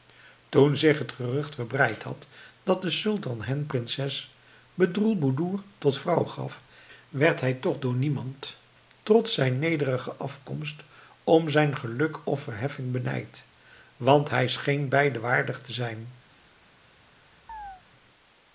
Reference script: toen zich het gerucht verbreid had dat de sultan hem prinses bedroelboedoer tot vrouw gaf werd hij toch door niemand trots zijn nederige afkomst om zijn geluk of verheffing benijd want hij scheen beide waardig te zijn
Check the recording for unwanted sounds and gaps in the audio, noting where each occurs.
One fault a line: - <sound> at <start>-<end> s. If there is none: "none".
- chirp at 17.5-17.8 s